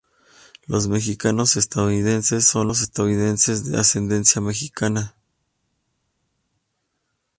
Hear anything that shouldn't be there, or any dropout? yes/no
no